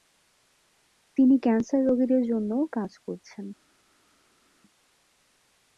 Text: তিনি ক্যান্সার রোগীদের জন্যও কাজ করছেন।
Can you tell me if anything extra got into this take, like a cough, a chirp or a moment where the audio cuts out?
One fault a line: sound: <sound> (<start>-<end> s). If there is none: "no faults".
no faults